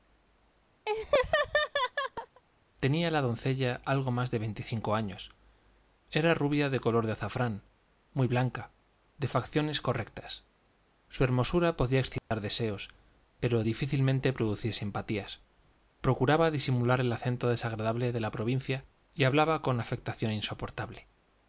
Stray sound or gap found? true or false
true